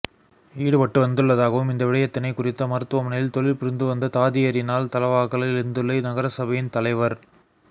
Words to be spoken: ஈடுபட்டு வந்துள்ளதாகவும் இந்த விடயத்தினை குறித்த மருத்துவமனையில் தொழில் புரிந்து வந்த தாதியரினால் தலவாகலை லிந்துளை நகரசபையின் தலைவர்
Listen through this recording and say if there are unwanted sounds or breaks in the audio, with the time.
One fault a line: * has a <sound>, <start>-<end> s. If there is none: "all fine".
all fine